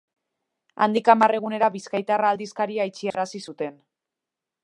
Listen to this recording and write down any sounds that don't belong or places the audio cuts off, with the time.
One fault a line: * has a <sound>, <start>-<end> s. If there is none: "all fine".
* has a dropout, 3.1-3.1 s